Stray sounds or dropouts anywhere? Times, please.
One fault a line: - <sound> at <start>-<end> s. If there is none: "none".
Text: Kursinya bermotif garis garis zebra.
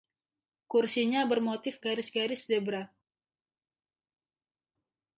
none